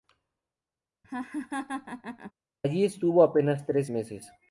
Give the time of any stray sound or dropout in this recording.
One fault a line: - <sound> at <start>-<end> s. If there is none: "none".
- laugh at 1.0-2.3 s